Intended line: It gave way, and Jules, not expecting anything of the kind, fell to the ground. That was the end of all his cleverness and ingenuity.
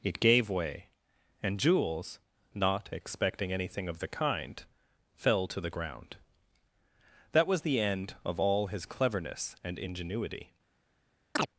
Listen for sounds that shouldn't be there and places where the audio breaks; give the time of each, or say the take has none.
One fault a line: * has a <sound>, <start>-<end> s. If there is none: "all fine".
* has a chirp, 11.4-11.5 s